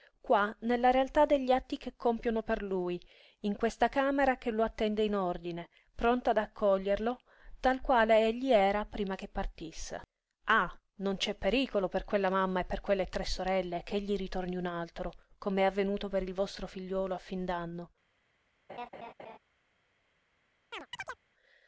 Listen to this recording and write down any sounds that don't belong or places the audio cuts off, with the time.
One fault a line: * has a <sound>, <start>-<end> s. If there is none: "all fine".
* has a laugh, 18.7-19.4 s
* has a chirp, 20.7-21.2 s